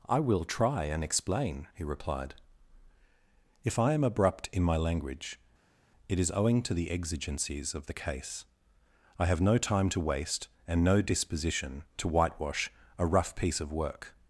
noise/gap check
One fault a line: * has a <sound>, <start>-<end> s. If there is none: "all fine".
all fine